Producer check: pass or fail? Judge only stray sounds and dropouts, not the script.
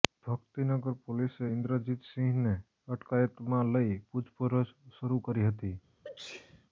fail